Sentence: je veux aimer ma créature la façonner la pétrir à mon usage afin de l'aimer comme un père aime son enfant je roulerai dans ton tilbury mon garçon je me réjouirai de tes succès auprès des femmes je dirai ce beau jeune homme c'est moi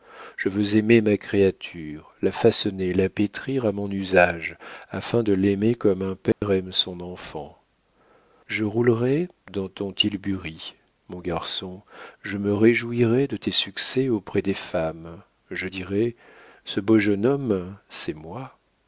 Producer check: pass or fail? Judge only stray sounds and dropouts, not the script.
fail